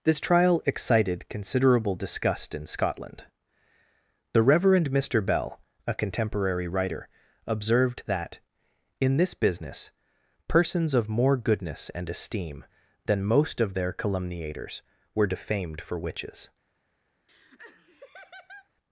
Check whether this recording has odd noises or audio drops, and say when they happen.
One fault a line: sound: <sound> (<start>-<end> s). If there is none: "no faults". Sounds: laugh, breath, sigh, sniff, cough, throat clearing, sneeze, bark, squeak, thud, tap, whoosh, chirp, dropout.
sound: laugh (17.3-18.7 s)